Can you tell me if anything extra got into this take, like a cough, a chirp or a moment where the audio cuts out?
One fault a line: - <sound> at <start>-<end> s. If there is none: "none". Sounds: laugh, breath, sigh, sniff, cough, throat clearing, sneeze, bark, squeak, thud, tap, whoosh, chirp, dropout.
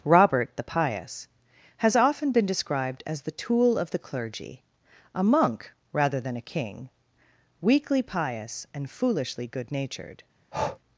- breath at 10.5-10.8 s